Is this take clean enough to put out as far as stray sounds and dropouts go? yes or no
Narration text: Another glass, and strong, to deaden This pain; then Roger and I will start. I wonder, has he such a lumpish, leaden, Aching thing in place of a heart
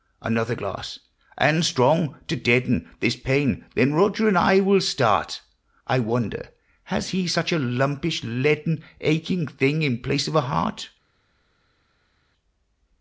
yes